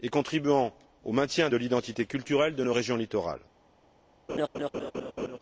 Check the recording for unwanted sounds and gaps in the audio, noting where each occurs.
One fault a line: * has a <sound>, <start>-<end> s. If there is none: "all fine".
* has a laugh, 4.3-5.4 s